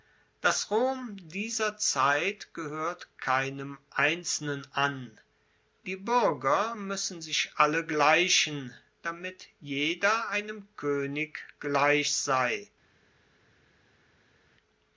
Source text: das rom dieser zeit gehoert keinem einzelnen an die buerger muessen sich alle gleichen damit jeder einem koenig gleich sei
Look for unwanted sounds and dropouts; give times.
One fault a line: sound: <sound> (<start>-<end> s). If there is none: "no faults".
no faults